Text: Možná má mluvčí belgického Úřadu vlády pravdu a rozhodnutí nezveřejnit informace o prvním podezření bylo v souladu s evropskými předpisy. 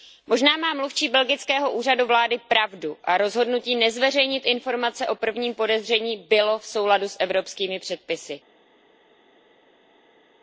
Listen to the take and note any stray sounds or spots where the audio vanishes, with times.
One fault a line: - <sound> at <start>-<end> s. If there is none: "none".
none